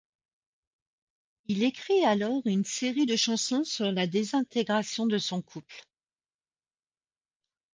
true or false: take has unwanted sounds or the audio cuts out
false